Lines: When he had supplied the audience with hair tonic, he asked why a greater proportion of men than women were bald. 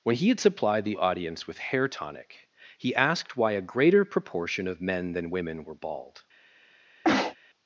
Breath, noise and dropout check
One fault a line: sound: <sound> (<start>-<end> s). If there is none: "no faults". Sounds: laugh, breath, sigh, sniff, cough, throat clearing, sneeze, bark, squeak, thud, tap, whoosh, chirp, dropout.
sound: sneeze (7.0-7.4 s)